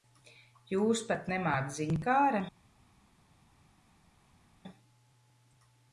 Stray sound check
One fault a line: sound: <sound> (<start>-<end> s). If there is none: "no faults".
no faults